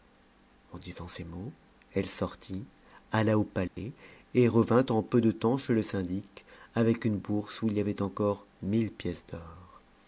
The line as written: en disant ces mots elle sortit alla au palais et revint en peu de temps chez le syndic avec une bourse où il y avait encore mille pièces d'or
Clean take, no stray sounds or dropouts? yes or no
no